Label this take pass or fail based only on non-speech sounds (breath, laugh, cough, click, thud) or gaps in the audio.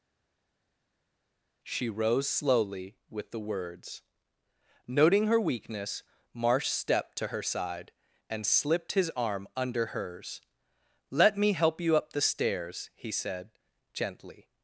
pass